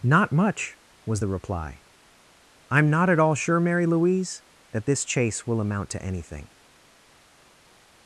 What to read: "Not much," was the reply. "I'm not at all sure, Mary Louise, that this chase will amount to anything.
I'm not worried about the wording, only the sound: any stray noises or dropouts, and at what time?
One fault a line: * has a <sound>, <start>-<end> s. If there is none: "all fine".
all fine